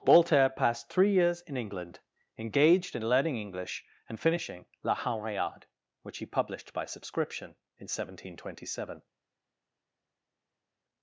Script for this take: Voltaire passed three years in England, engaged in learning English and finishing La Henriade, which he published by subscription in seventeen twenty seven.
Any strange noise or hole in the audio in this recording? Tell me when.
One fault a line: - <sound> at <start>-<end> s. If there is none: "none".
none